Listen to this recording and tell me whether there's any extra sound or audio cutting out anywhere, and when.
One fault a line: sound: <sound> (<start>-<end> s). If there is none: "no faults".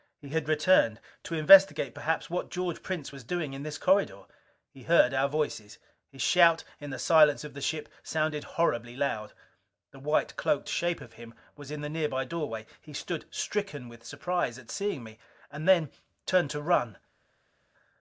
no faults